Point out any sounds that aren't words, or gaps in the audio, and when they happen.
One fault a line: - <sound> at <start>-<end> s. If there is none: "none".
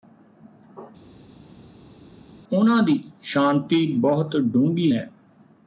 none